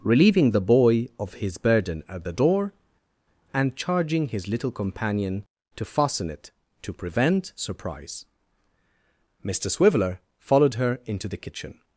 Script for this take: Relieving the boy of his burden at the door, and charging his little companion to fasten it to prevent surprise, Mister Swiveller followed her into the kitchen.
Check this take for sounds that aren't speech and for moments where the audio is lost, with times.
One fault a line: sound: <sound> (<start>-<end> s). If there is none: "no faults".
no faults